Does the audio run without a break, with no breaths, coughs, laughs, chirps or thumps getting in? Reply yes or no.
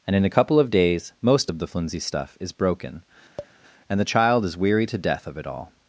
no